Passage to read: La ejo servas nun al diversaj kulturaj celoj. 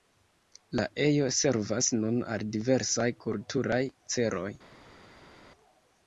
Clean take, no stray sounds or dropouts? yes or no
yes